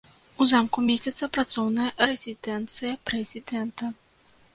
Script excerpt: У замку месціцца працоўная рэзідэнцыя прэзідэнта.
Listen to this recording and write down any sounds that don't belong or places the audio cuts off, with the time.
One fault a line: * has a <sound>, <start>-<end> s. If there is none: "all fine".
all fine